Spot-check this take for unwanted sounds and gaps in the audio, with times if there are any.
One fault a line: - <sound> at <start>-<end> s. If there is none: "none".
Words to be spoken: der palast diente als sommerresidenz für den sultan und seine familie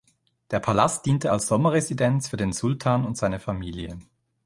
none